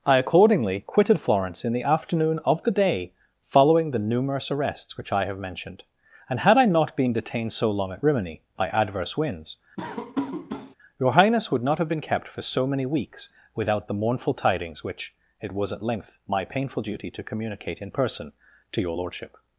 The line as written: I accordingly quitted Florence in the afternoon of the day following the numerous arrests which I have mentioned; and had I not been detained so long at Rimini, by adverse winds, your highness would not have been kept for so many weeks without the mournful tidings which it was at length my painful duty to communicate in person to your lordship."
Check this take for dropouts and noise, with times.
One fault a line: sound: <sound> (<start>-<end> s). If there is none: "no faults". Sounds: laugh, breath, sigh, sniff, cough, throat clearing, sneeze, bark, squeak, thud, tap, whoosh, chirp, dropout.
sound: laugh (9.8-10.8 s)